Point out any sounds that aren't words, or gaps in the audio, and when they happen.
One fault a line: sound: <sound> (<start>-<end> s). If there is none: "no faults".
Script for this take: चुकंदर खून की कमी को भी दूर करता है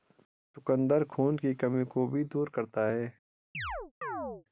sound: chirp (3.5-4.4 s)